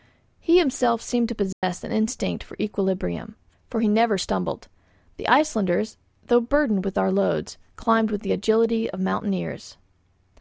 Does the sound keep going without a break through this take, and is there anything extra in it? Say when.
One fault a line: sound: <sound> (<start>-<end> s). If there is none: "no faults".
sound: dropout (1.5-1.6 s)